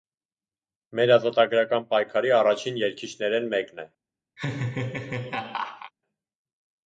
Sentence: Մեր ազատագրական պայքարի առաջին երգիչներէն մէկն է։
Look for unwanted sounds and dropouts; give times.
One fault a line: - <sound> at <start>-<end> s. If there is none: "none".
- laugh at 4.4-5.9 s